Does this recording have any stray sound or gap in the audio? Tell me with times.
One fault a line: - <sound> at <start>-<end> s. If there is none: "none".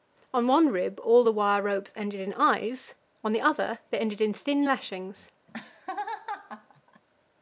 - laugh at 5.5-7.0 s